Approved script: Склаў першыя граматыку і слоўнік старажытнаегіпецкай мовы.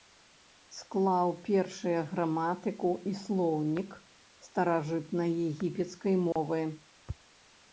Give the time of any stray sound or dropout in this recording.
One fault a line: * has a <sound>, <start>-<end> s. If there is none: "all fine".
* has a dropout, 6.3-6.4 s